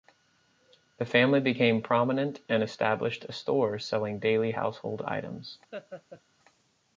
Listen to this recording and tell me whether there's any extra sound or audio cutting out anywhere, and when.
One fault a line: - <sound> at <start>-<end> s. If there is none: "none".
- laugh at 5.7-6.2 s